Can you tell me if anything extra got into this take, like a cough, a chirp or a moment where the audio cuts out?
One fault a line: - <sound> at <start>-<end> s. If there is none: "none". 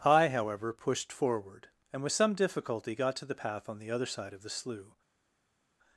none